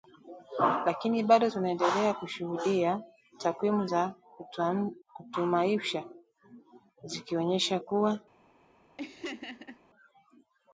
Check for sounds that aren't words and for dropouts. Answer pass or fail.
fail